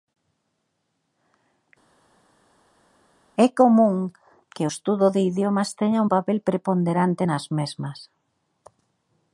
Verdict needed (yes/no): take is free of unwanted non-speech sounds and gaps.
yes